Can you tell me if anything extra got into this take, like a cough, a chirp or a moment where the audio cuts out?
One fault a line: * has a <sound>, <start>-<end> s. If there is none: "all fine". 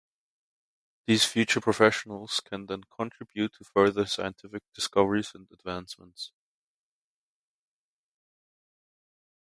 all fine